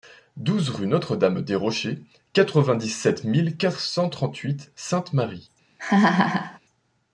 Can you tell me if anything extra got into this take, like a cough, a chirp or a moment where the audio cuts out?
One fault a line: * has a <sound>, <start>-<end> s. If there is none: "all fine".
* has a laugh, 5.8-6.6 s